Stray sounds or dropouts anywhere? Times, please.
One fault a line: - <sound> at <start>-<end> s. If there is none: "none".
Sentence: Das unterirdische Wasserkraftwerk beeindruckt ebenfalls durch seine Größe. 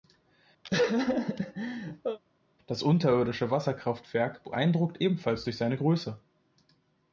- laugh at 0.6-2.2 s